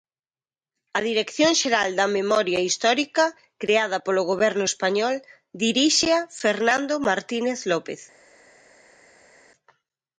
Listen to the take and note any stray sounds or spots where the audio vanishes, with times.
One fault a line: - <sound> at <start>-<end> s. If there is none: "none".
none